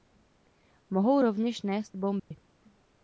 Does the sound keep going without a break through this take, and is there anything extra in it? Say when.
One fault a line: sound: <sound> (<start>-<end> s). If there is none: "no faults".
sound: dropout (2.2-2.3 s)